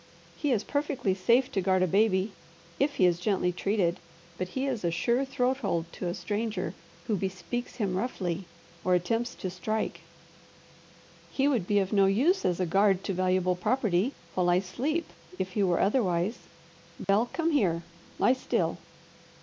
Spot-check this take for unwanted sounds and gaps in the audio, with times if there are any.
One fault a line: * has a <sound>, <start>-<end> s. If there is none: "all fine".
* has a dropout, 17.0-17.1 s